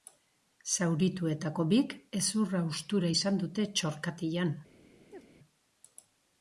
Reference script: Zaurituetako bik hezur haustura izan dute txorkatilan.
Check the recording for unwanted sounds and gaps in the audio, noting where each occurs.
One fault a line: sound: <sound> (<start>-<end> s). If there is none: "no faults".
sound: chirp (5.1-5.3 s)